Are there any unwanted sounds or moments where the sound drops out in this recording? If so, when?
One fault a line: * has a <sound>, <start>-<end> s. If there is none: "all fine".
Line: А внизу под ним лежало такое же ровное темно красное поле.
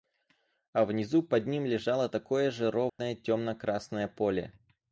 * has a dropout, 2.9-3.0 s